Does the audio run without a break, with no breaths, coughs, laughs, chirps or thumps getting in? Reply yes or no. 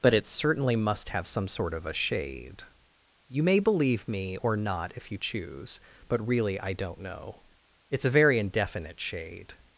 yes